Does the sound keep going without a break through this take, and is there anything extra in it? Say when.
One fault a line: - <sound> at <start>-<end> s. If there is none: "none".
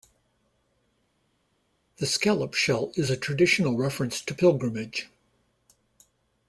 none